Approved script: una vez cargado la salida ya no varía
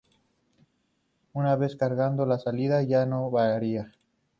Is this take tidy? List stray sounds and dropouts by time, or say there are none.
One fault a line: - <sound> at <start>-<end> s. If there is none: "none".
none